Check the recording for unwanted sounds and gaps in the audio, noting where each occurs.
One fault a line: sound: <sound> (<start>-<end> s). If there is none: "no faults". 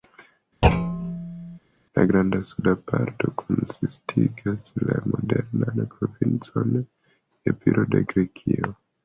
sound: thud (0.6-1.6 s)